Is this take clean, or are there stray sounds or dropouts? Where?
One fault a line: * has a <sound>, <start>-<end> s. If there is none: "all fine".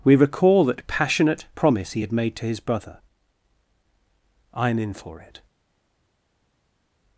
all fine